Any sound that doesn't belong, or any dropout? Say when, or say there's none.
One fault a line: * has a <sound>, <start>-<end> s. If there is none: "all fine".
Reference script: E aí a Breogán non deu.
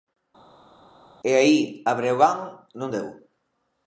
all fine